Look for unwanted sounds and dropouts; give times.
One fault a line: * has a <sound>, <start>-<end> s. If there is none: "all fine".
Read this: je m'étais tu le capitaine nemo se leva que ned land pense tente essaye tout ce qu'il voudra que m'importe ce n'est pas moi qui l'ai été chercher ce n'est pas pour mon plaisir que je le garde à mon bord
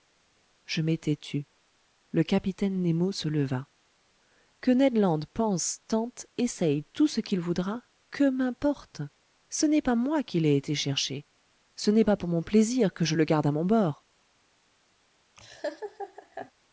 * has a laugh, 15.4-16.5 s